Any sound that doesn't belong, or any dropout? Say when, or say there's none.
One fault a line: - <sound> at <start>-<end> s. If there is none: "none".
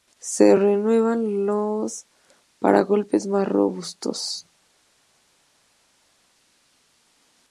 none